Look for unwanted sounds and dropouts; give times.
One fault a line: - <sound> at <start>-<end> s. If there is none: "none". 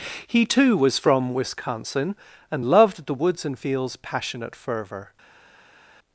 none